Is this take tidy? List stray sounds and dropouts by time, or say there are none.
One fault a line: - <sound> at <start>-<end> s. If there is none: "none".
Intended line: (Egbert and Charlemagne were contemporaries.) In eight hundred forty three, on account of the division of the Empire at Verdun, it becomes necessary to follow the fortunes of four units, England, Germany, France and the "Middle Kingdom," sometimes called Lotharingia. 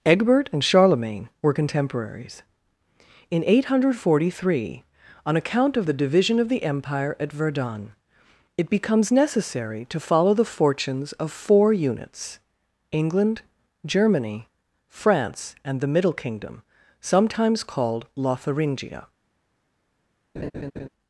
- laugh at 20.4-20.9 s